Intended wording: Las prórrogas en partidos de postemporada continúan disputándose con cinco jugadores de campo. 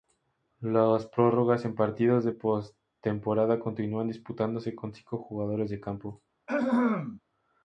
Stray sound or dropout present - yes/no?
yes